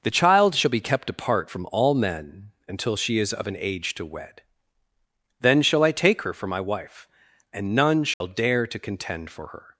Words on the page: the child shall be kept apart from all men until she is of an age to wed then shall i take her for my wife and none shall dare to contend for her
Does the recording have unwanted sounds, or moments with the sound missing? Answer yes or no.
yes